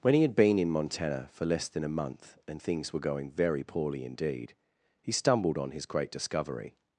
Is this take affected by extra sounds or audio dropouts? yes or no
no